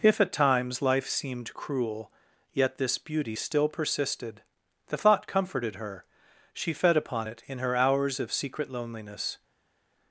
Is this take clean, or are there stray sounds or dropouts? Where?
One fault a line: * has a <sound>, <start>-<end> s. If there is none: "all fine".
all fine